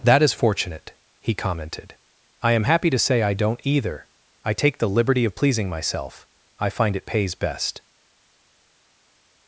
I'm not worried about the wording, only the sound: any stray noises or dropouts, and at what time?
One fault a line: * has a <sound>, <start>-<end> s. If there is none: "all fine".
all fine